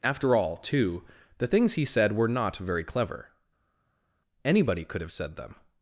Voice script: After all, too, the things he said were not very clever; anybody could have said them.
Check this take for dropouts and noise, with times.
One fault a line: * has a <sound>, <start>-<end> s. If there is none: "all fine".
all fine